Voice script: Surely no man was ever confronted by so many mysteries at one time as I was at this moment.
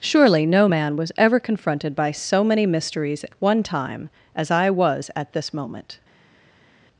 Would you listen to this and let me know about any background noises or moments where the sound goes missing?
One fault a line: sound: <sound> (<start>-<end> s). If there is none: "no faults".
no faults